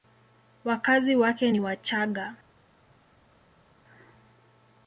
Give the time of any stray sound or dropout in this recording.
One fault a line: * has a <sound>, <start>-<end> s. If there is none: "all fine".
all fine